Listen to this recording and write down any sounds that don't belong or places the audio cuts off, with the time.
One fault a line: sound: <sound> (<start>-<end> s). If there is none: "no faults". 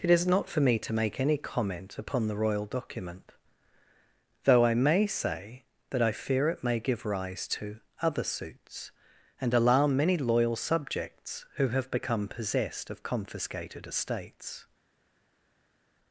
no faults